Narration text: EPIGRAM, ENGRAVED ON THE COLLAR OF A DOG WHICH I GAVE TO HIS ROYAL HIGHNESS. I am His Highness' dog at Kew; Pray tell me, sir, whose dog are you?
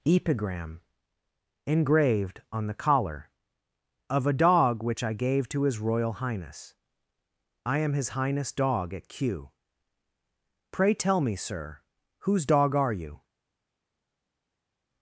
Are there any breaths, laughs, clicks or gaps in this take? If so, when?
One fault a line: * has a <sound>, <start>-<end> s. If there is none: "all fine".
all fine